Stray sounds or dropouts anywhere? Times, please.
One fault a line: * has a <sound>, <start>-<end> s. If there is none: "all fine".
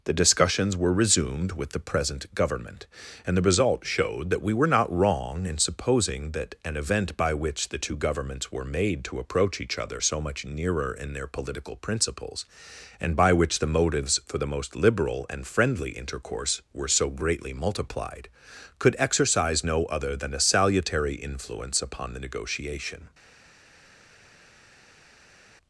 all fine